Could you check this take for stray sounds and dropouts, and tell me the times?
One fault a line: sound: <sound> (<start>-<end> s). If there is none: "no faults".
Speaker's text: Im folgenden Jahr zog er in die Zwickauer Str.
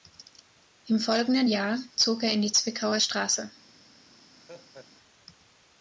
sound: laugh (4.4-4.9 s)